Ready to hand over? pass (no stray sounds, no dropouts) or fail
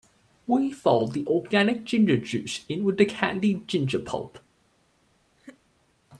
fail